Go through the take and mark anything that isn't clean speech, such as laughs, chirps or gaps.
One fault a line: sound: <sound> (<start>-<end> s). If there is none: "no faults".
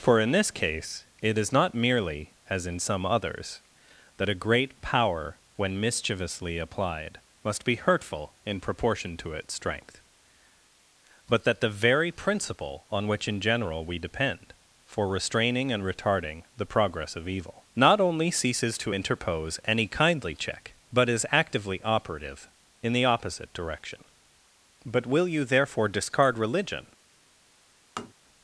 sound: tap (28.0-28.1 s)